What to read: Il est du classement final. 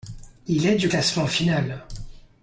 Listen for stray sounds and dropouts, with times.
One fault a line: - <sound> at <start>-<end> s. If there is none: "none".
none